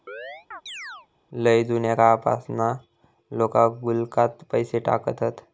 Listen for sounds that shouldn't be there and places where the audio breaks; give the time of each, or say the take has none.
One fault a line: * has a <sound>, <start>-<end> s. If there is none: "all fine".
* has a chirp, 0.1-1.1 s